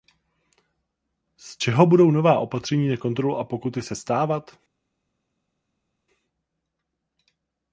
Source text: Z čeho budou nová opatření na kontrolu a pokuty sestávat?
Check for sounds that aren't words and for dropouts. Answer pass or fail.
pass